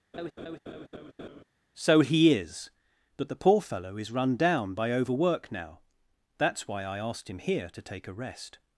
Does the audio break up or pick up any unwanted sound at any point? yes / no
yes